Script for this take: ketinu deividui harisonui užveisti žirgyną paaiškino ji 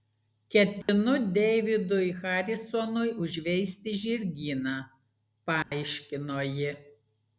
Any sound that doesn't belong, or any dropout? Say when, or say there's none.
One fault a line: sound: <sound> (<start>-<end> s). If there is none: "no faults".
sound: dropout (0.8-0.9 s)
sound: dropout (5.6-5.7 s)